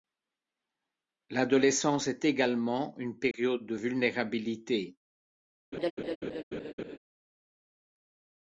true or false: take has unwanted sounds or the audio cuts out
true